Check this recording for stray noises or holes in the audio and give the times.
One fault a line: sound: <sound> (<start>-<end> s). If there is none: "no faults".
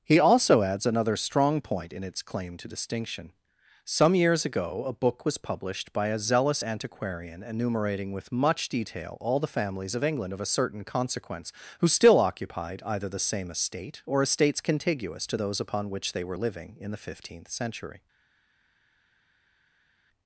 no faults